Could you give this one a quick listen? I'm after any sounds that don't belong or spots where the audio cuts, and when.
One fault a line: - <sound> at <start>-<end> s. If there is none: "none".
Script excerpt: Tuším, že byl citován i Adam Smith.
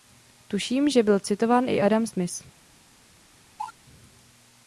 - cough at 3.6-3.7 s